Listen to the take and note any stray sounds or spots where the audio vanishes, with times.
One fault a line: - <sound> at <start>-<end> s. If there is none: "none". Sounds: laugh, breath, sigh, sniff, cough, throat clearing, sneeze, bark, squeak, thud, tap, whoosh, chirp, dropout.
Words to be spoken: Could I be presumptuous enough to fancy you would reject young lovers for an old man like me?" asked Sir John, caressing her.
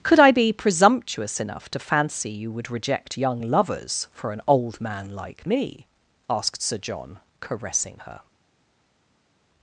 none